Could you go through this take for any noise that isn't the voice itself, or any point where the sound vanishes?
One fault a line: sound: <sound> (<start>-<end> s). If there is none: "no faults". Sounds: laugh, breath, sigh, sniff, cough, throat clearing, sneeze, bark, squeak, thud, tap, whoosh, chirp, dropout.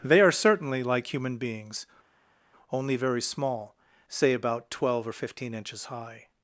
no faults